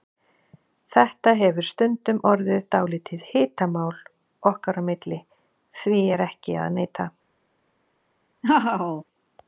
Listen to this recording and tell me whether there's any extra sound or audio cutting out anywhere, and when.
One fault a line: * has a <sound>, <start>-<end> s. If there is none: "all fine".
* has a laugh, 8.4-9.0 s